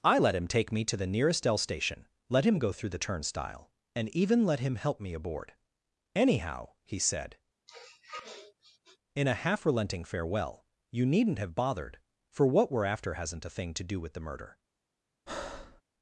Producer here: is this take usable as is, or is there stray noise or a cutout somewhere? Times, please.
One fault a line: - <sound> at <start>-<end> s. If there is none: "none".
- sniff at 7.7-9.0 s
- breath at 15.3-15.8 s